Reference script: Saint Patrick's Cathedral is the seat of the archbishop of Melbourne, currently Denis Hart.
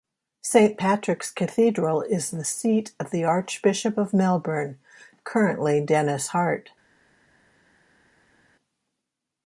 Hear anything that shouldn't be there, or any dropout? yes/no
no